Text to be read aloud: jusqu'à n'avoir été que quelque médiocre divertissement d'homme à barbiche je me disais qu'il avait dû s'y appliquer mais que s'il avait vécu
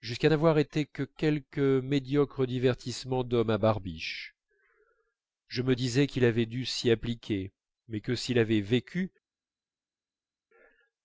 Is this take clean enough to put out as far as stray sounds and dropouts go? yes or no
yes